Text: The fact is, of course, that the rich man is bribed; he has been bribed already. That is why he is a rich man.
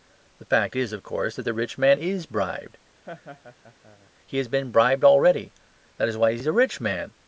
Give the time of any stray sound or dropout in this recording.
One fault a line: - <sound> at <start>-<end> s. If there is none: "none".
- laugh at 3.0-4.1 s